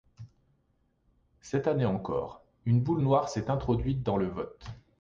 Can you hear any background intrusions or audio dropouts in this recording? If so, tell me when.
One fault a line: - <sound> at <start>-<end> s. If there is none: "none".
none